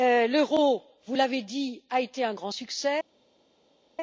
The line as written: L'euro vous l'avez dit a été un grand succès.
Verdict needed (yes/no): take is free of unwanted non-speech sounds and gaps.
yes